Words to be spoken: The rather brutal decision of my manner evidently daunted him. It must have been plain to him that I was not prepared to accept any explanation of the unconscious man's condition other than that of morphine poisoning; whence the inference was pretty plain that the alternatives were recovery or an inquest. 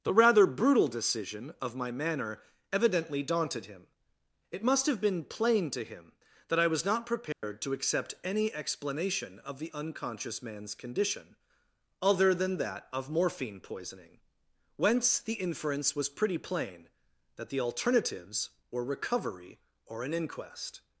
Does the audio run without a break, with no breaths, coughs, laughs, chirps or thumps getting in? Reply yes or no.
no